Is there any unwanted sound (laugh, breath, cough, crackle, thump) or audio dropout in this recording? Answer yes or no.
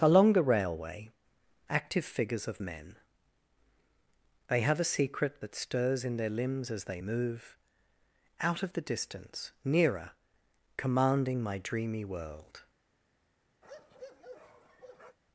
yes